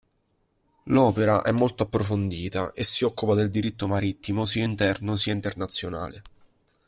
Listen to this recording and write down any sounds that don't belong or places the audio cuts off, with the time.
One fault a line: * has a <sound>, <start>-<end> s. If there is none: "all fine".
all fine